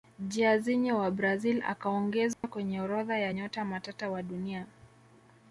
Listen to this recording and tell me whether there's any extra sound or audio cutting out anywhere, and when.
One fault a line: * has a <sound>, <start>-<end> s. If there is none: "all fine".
* has a dropout, 2.3-2.4 s